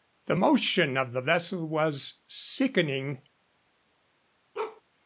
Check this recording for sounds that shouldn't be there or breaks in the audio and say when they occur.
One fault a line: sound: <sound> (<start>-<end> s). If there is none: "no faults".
sound: bark (4.5-4.8 s)